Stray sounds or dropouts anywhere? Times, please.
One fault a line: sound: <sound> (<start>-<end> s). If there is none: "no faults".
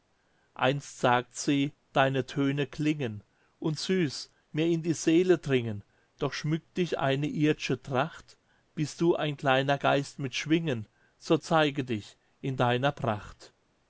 no faults